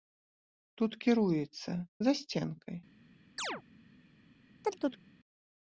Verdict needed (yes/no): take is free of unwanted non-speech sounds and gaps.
no